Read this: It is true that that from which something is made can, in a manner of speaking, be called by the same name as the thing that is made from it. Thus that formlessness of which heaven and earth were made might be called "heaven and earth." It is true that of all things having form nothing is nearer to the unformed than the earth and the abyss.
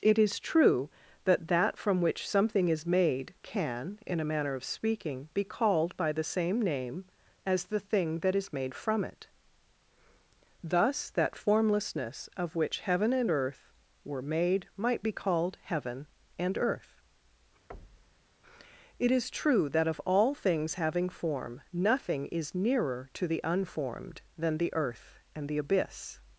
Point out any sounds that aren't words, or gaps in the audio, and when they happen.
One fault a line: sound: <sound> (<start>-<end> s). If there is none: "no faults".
sound: thud (17.7-18.3 s)